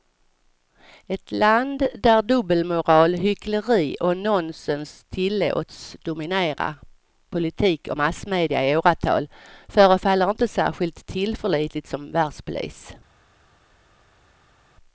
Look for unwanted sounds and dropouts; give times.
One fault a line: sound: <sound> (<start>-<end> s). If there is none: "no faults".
no faults